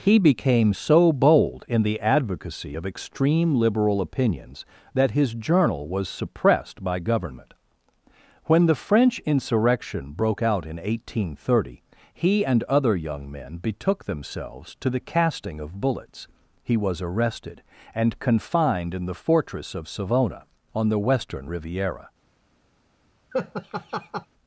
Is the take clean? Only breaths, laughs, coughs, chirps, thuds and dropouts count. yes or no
no